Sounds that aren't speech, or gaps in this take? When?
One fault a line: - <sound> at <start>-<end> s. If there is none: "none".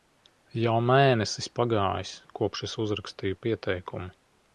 none